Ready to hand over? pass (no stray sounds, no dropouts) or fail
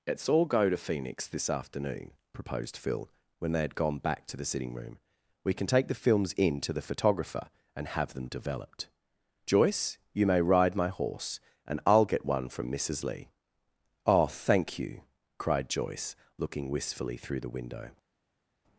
pass